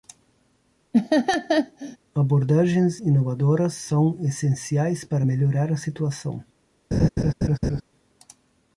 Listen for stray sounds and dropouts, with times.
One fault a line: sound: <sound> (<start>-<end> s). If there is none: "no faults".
sound: laugh (0.9-2.0 s)
sound: laugh (6.9-7.8 s)